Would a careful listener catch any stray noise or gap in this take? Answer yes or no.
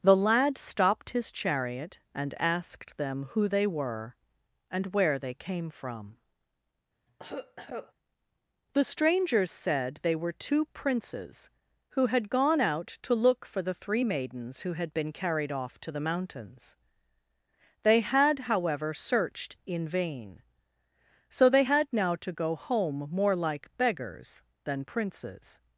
yes